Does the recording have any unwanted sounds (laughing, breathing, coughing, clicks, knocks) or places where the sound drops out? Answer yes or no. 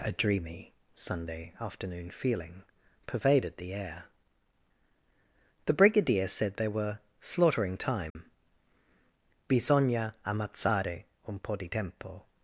yes